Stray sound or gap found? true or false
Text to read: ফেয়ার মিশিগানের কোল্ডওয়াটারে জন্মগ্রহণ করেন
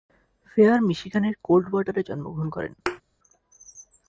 true